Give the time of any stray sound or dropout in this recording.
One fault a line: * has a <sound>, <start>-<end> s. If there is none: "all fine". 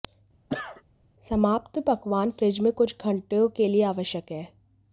* has a cough, 0.5-0.8 s